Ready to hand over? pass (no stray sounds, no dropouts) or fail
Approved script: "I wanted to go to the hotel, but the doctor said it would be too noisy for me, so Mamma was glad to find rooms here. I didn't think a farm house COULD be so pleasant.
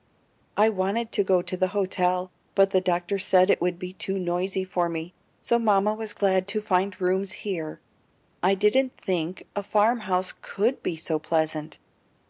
pass